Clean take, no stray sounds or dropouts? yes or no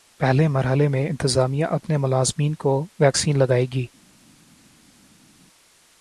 yes